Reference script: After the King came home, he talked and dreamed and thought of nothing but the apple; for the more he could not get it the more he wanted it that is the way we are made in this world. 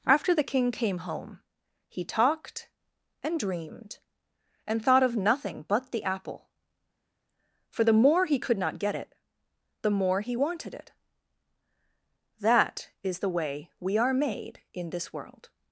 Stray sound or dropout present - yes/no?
no